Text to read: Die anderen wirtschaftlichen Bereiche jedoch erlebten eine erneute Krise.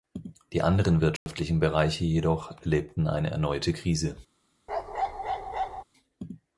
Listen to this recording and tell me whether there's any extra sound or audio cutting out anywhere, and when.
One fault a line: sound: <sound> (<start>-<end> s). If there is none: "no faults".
sound: dropout (1.2-1.3 s)
sound: bark (4.7-5.8 s)